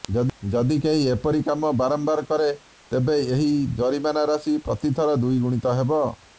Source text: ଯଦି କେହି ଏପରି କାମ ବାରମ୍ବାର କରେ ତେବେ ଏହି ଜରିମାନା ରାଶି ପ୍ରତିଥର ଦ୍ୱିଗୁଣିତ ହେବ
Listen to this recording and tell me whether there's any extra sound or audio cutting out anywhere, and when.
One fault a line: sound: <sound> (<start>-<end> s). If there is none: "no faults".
no faults